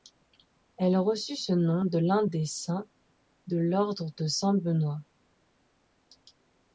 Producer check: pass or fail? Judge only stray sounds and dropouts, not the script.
pass